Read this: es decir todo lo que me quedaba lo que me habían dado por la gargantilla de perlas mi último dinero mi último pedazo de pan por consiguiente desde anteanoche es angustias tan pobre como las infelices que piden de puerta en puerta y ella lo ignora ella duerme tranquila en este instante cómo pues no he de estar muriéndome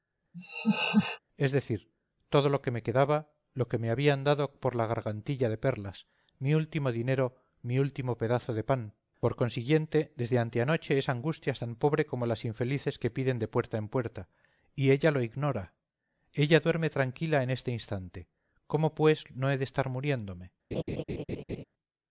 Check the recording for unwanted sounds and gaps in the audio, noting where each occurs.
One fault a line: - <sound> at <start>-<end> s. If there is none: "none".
- laugh at 0.3-1.2 s
- laugh at 20.7-21.6 s